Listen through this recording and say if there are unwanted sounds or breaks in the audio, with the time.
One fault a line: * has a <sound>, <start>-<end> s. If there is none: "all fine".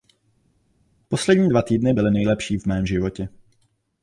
all fine